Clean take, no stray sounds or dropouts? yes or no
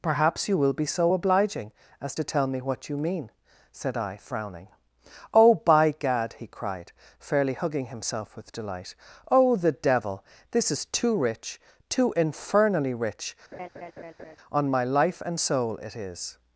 no